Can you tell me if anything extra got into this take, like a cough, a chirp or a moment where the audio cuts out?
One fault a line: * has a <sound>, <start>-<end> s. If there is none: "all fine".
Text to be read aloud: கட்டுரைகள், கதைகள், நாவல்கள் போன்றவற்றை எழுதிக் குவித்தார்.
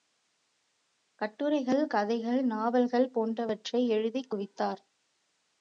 all fine